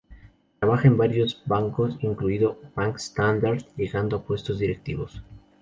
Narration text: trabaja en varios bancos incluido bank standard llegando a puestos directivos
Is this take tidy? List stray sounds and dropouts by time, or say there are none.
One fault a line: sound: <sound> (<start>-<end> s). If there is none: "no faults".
no faults